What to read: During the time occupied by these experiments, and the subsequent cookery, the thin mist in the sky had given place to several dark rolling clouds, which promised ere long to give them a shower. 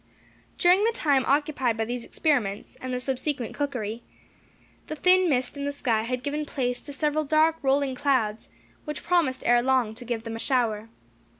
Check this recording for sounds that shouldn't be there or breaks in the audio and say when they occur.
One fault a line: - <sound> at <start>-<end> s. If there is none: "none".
none